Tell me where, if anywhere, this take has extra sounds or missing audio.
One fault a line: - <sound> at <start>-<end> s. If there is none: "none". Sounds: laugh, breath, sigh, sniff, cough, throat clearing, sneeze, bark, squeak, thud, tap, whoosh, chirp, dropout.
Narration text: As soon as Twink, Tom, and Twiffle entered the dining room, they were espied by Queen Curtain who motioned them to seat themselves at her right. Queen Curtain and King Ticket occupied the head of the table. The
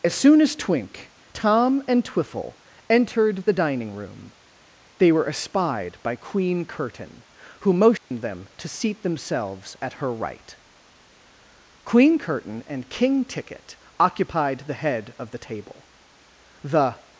- dropout at 8.0-8.1 s